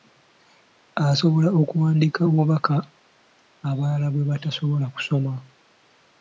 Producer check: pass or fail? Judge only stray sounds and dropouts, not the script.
pass